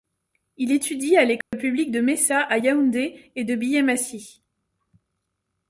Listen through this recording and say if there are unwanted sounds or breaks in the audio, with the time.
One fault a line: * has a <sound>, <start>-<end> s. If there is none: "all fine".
* has a dropout, 1.4-1.5 s